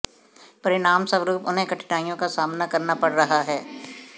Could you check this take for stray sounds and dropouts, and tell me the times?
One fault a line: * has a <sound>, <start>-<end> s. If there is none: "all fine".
all fine